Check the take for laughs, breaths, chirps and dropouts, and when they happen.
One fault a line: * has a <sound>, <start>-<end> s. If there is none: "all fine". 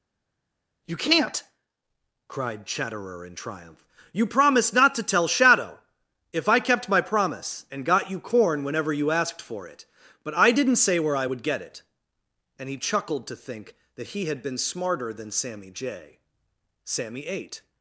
all fine